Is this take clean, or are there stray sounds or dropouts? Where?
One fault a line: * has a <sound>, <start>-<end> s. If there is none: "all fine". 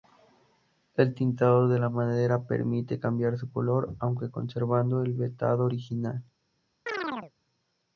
* has a chirp, 6.9-7.3 s